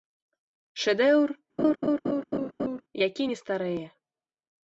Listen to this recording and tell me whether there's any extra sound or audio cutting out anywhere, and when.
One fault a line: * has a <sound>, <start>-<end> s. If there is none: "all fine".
* has a laugh, 1.6-2.8 s